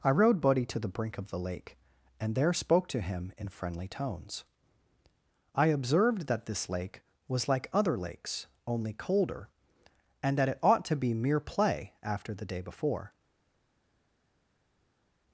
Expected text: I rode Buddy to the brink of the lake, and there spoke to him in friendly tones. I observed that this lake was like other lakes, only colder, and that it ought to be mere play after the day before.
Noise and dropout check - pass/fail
pass